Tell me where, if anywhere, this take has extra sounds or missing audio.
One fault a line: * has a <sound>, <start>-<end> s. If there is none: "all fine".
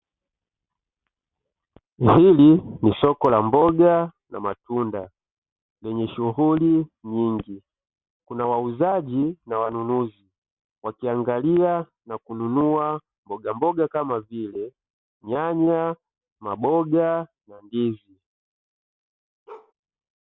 * has a bark, 19.5-19.7 s